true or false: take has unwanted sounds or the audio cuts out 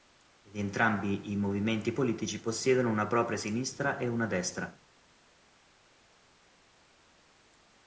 false